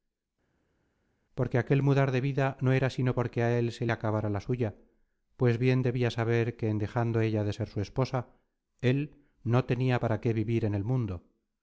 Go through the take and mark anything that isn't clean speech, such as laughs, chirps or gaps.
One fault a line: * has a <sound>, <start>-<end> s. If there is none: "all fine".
all fine